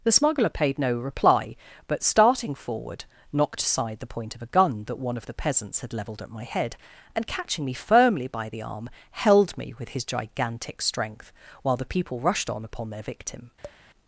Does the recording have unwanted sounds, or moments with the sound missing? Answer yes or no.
yes